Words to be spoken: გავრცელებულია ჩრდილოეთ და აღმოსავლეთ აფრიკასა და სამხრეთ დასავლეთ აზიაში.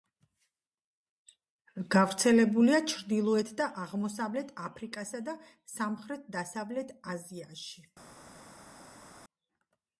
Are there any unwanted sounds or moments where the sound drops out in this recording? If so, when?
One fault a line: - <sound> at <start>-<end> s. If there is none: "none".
none